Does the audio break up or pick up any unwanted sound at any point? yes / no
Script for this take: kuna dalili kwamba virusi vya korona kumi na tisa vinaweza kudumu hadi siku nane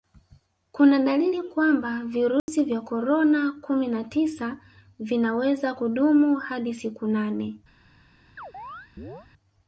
yes